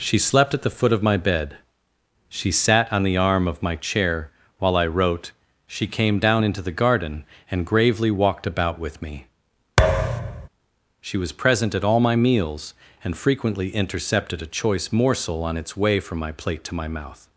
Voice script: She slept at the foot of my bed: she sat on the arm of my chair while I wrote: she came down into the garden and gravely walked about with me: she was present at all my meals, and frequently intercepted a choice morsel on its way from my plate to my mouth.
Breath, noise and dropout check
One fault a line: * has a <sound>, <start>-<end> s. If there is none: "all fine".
* has a thud, 9.8-10.5 s